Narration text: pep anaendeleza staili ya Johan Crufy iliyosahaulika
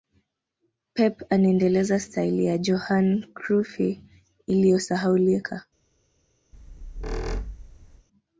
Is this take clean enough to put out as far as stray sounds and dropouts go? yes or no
no